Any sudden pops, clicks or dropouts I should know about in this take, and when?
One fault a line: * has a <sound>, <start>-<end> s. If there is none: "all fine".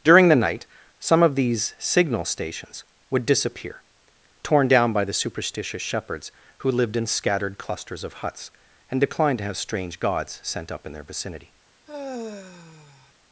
* has a sigh, 11.9-13.1 s